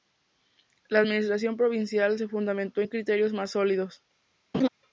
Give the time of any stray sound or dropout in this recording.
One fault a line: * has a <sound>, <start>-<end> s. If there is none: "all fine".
* has a laugh, 4.5-4.7 s